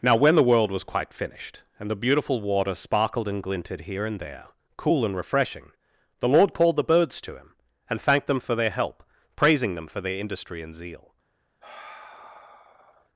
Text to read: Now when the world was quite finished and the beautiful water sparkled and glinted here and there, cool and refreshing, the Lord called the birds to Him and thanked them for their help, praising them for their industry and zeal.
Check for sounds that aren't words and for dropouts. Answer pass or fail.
fail